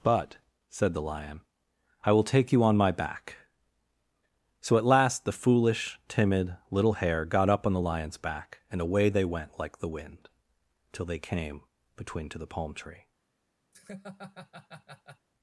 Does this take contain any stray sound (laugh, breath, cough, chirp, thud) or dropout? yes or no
yes